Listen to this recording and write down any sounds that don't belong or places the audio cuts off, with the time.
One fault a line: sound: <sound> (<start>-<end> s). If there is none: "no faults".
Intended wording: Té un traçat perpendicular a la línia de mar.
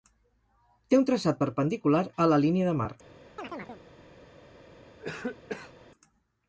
sound: chirp (3.4-3.8 s)
sound: cough (5.0-5.7 s)